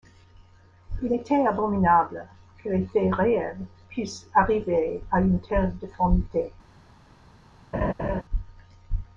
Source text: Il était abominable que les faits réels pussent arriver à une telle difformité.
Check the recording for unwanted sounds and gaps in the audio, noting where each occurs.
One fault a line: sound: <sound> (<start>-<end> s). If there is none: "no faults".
sound: laugh (7.7-8.2 s)